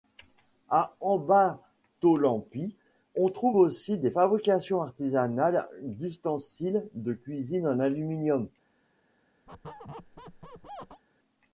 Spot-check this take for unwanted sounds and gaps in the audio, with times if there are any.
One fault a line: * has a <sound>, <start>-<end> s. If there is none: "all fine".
* has a squeak, 9.5-11.0 s